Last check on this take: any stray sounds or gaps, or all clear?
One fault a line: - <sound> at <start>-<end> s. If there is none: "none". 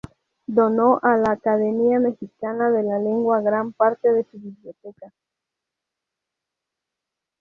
none